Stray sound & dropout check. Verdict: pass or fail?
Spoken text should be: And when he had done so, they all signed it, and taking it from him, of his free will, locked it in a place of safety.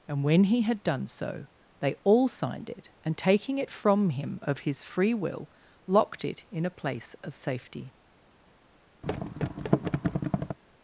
fail